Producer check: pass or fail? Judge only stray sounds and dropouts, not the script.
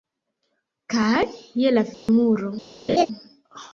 fail